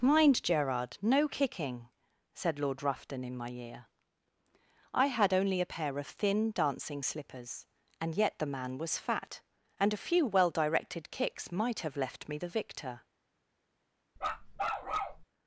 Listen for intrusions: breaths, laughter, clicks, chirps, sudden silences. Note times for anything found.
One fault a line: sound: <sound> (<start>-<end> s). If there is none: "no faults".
sound: bark (14.2-15.2 s)